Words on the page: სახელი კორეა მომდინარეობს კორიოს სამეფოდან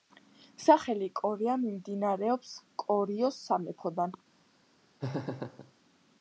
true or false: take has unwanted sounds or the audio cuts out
true